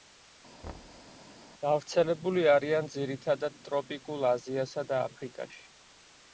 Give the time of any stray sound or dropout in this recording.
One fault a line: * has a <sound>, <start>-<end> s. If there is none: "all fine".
* has a thud, 0.6-1.1 s